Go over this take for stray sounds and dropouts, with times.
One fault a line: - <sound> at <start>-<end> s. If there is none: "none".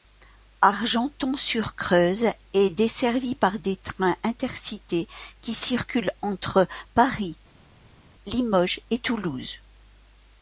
none